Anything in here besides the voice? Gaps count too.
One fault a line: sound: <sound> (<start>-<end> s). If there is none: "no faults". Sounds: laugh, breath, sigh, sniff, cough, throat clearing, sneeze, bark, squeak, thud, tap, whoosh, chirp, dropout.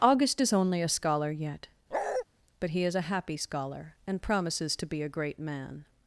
sound: bark (1.9-2.2 s)